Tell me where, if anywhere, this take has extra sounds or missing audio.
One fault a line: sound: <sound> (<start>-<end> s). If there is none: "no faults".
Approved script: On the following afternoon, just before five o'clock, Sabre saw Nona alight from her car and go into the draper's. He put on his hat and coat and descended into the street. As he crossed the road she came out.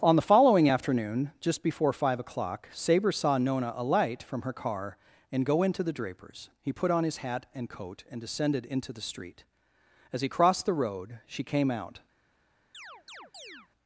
sound: chirp (12.7-13.7 s)